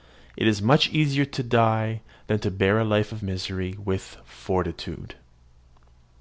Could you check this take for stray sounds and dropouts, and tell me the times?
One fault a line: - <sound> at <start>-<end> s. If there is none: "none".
none